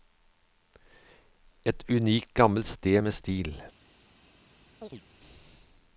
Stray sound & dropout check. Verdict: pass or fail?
fail